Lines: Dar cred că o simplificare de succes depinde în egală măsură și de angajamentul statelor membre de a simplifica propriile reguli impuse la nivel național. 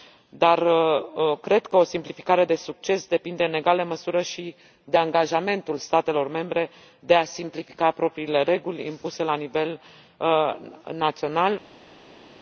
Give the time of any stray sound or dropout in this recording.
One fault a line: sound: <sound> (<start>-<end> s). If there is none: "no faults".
no faults